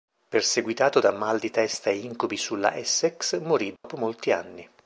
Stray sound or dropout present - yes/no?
yes